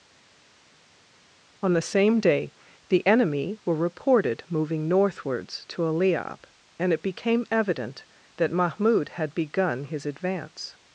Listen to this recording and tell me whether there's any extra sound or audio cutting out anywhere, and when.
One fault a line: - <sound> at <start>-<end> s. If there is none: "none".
none